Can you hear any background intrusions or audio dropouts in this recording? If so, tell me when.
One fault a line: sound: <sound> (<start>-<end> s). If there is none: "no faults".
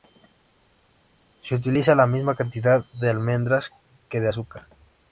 no faults